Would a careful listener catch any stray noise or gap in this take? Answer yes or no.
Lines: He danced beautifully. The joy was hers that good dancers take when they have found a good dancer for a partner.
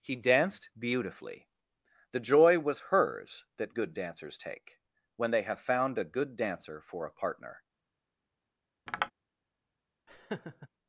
yes